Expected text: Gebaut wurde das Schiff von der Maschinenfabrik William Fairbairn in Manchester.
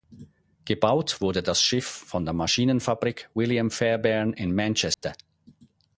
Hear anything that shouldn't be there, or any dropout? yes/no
yes